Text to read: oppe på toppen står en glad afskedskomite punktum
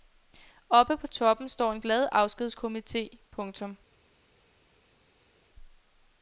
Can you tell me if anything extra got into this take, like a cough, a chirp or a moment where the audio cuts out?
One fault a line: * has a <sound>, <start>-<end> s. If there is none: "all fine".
all fine